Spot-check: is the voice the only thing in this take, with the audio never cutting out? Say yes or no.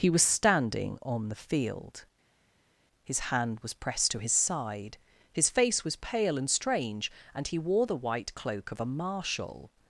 yes